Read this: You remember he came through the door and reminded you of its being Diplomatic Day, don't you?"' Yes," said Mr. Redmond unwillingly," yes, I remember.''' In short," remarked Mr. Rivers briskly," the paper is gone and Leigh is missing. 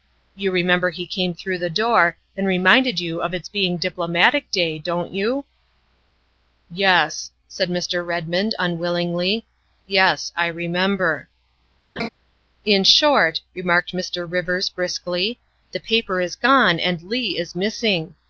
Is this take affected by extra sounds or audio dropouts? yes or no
yes